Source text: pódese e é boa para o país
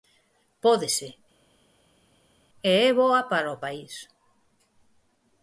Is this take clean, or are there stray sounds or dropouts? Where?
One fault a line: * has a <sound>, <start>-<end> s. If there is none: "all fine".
all fine